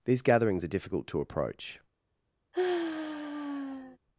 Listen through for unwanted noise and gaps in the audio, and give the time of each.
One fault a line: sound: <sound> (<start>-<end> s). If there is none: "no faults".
sound: sigh (2.5-4.0 s)